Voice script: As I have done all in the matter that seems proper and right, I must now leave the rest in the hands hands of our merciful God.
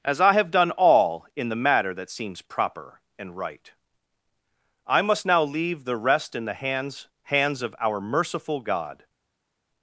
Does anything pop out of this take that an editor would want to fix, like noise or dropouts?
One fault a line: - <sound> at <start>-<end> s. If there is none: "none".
none